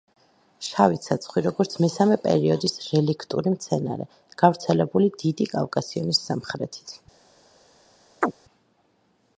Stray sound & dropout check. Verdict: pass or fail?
fail